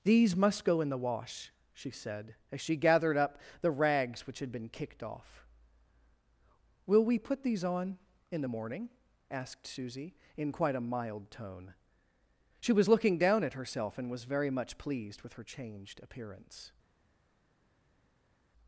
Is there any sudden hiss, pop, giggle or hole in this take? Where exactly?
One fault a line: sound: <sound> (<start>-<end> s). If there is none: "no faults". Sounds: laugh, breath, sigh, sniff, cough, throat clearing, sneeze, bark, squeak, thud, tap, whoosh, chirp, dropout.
no faults